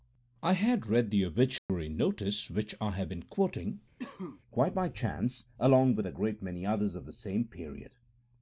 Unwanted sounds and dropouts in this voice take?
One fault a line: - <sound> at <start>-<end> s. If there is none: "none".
- dropout at 1.6-1.7 s
- cough at 4.0-4.4 s